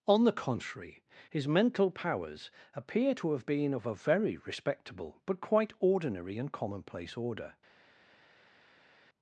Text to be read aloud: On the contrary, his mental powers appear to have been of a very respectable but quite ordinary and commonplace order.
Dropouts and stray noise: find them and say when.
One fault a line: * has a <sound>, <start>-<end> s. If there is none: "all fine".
all fine